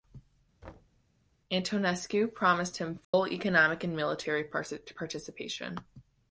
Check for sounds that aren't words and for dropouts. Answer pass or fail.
fail